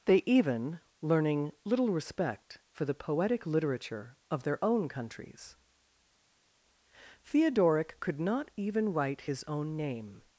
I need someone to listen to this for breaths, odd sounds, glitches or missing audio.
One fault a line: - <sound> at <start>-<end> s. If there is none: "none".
none